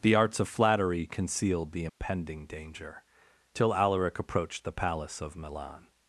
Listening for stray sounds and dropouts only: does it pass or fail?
fail